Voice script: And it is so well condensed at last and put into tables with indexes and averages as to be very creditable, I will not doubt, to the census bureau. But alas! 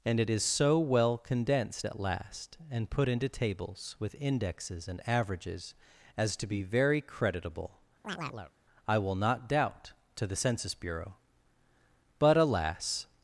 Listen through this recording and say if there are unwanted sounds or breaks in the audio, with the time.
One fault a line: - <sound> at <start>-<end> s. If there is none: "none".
- chirp at 8.0-8.5 s